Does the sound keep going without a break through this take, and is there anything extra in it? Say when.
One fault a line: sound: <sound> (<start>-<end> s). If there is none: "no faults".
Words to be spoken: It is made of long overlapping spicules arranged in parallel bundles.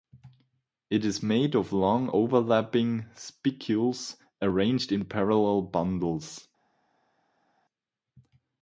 no faults